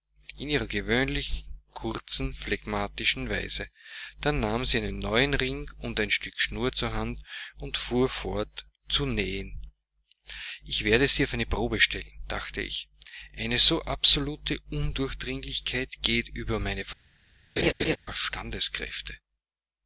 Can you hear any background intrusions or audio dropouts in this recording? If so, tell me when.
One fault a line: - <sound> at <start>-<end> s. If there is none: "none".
- laugh at 17.6-18.0 s